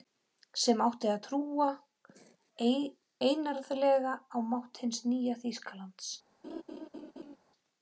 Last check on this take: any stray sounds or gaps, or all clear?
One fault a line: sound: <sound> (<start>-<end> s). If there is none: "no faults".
sound: laugh (6.4-7.4 s)